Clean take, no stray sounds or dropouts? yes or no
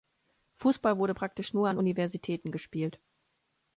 yes